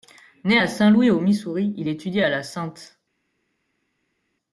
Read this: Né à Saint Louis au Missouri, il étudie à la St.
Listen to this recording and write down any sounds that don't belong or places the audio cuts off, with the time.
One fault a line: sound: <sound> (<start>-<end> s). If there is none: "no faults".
no faults